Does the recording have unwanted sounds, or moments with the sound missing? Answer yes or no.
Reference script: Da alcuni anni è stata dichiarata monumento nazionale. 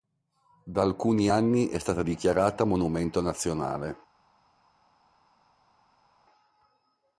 no